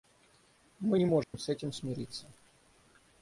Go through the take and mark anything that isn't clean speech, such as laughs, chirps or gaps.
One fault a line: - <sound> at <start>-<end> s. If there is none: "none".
- dropout at 1.2-1.3 s